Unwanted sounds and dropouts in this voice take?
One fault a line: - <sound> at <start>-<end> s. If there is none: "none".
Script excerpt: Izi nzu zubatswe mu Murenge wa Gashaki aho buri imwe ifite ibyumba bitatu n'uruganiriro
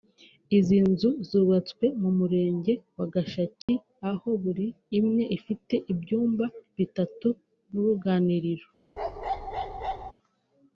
- dropout at 3.6-3.7 s
- bark at 9.0-10.1 s